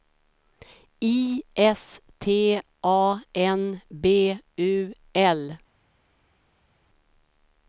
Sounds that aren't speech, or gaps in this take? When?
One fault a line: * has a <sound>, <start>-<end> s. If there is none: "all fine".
all fine